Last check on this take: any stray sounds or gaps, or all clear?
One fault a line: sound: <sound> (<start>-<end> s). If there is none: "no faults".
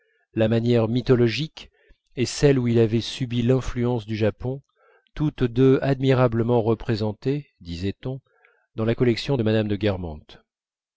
no faults